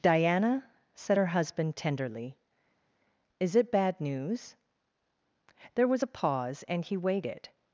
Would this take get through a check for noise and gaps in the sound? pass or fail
pass